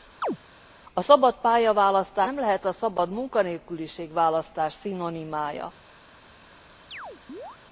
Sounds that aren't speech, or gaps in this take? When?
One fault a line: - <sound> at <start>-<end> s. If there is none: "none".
- chirp at 0.2-0.4 s
- chirp at 6.9-7.6 s